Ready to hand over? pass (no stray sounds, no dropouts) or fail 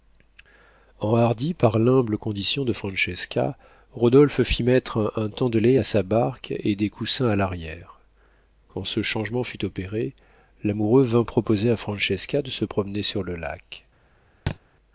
fail